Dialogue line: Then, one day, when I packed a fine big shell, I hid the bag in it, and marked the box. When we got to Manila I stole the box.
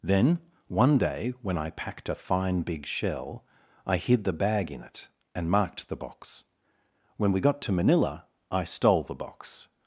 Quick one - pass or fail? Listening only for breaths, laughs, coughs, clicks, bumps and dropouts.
pass